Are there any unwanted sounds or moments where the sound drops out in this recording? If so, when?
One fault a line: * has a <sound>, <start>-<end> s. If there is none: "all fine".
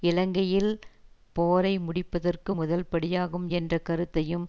all fine